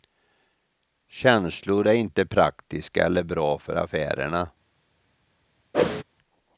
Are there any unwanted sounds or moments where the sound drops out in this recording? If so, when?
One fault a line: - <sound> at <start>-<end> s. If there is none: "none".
- whoosh at 5.7-6.0 s